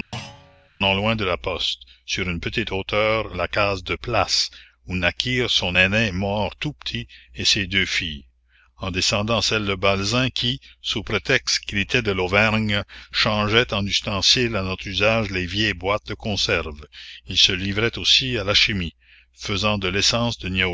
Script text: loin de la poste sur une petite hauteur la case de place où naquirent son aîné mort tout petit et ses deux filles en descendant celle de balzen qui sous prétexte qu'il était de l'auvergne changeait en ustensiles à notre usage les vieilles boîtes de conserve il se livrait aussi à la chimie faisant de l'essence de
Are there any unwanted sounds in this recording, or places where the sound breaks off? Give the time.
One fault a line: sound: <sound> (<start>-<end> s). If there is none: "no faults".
sound: thud (0.1-0.7 s)